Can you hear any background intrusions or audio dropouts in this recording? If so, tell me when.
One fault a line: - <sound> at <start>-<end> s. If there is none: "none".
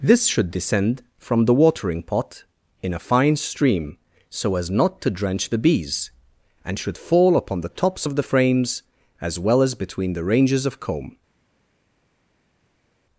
none